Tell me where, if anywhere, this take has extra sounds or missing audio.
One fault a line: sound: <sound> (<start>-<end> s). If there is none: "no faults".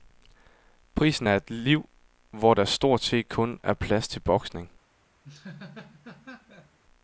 sound: laugh (5.2-6.8 s)